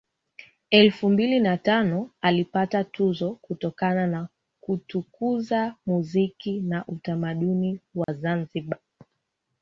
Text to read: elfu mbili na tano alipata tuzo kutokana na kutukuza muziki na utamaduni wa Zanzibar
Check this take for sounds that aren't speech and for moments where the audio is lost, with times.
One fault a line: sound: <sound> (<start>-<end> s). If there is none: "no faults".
sound: dropout (8.0-8.1 s)